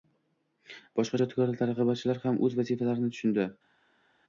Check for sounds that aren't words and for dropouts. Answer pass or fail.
pass